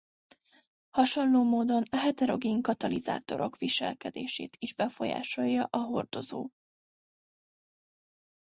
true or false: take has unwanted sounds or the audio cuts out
false